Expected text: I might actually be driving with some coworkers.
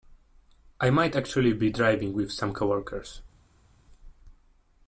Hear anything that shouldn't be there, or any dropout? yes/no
no